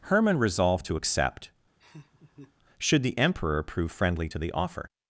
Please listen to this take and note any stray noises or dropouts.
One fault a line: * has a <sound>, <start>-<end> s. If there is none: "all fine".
* has a laugh, 1.8-2.5 s